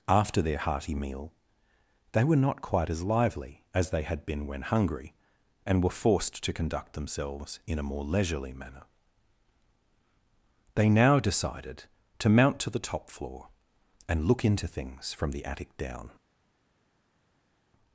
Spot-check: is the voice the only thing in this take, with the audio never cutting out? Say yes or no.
yes